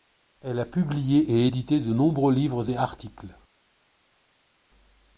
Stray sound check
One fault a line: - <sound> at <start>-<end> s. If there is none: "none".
none